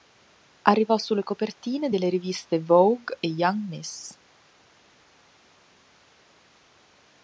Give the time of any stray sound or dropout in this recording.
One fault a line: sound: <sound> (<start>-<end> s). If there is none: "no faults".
no faults